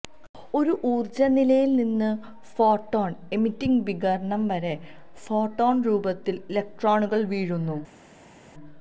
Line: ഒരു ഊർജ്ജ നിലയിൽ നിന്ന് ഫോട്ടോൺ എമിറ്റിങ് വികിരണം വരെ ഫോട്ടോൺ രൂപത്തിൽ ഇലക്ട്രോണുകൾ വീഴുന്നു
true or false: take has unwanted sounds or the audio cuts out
false